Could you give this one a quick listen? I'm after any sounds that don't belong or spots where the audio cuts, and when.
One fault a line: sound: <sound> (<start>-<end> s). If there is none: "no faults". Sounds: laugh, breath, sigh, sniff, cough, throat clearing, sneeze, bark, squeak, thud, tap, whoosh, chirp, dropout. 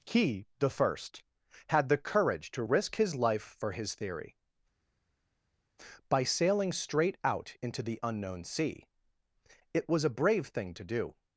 no faults